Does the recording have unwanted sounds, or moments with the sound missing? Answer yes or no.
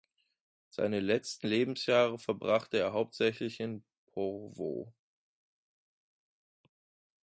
no